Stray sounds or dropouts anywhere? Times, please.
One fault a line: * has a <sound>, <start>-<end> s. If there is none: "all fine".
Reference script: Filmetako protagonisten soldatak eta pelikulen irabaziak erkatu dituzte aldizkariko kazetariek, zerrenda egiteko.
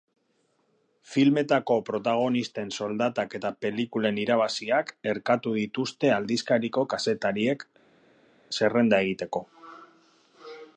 all fine